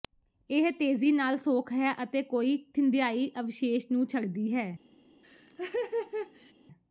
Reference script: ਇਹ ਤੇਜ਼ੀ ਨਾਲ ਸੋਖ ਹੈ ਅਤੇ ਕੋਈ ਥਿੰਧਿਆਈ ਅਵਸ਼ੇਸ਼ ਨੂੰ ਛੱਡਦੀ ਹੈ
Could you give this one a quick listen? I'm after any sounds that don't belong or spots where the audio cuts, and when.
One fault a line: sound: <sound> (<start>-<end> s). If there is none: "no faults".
sound: laugh (5.2-6.5 s)